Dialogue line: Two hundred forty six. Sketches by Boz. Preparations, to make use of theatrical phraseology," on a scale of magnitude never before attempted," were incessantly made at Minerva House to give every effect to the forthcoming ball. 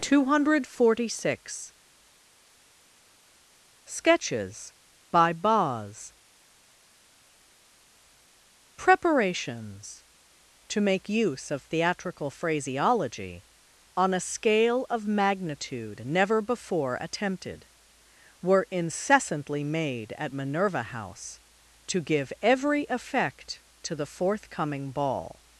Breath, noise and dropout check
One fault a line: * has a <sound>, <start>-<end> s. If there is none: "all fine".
all fine